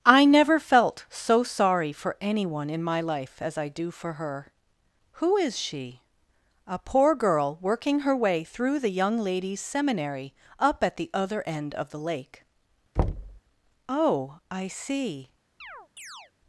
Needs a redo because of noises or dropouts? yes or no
yes